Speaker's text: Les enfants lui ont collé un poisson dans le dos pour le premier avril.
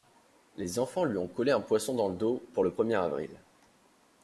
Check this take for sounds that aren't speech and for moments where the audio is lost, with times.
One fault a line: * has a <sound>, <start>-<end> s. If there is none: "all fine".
all fine